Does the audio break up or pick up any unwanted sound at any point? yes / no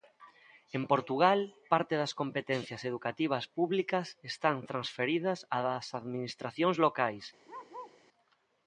yes